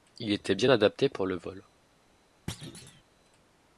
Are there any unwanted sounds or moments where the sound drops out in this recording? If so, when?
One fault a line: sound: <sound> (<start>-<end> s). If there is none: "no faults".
sound: thud (2.5-3.0 s)